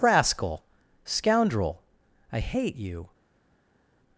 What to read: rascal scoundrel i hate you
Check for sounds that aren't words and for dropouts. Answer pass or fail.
pass